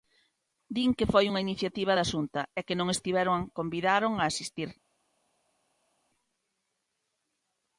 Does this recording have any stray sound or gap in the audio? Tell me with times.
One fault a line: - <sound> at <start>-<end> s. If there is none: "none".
none